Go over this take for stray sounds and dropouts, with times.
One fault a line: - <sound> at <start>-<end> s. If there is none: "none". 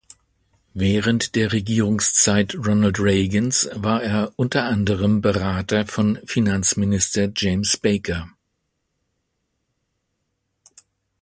none